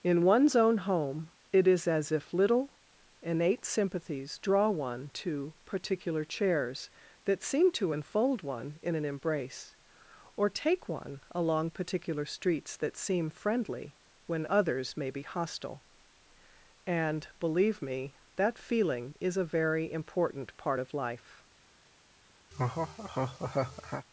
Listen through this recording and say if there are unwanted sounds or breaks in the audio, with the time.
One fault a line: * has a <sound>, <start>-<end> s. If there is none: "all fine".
* has a laugh, 22.5-24.1 s